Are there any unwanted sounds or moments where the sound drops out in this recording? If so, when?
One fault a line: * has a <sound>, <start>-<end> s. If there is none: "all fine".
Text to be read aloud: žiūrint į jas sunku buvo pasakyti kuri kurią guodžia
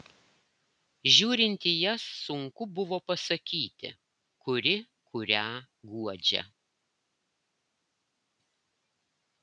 all fine